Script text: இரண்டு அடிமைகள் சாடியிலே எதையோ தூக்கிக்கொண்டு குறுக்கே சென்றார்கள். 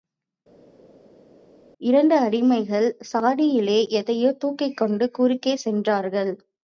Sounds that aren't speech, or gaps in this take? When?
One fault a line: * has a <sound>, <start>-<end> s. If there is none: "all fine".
all fine